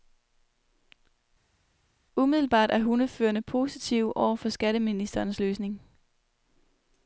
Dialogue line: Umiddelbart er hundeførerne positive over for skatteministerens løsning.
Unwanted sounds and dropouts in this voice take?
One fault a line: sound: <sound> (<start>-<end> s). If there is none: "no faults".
no faults